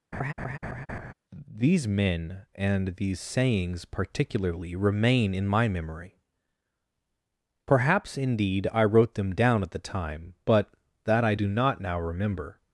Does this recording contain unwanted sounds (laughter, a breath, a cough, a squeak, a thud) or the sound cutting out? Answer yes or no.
yes